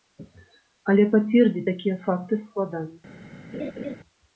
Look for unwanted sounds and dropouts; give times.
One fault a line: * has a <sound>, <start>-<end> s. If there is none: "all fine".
* has a laugh, 3.5-4.0 s